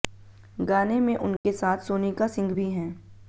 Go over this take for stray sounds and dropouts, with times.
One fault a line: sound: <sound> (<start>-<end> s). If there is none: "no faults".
sound: dropout (1.4-1.4 s)